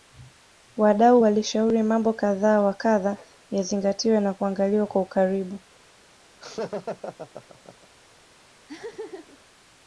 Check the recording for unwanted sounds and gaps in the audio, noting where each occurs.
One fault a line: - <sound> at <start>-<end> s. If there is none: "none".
- laugh at 6.4-7.9 s
- laugh at 8.7-9.4 s